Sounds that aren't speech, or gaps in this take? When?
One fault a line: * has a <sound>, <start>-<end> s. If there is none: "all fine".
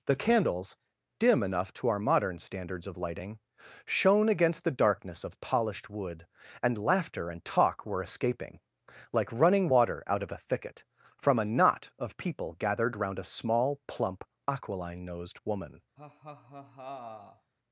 * has a laugh, 16.0-17.5 s